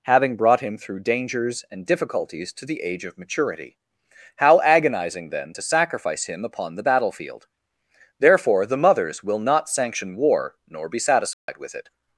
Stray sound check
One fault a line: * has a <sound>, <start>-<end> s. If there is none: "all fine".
* has a dropout, 11.3-11.5 s